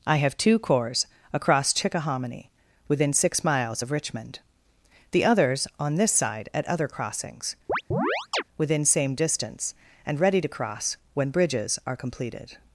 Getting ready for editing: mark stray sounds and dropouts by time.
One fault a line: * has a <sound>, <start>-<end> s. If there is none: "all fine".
* has a chirp, 7.7-8.4 s